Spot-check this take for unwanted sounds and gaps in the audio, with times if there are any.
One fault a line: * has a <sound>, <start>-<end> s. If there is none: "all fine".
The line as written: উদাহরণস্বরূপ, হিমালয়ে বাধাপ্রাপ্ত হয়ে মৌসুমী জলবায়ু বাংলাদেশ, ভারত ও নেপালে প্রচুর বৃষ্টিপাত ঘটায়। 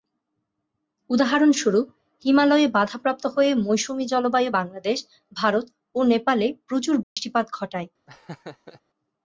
* has a dropout, 7.0-7.2 s
* has a laugh, 8.1-8.8 s